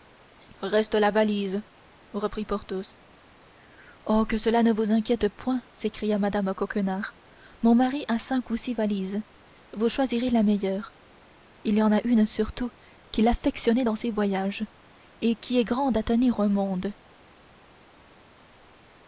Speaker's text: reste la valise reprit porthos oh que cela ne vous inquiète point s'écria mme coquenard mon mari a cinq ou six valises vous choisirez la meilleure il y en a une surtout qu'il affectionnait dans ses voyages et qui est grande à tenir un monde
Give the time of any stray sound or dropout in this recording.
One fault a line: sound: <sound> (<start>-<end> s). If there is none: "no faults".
no faults